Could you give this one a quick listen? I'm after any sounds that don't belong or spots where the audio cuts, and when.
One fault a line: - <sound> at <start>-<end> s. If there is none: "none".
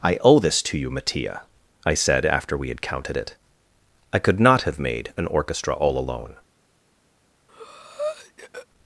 - breath at 7.5-8.7 s